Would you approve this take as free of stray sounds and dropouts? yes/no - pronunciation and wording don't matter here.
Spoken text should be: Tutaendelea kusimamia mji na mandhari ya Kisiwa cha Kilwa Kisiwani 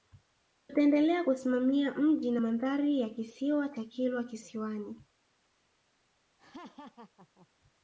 no